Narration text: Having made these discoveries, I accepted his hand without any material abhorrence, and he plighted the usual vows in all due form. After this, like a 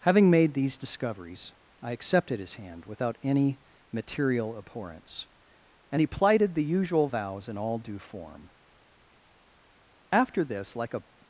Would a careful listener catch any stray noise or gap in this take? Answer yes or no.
no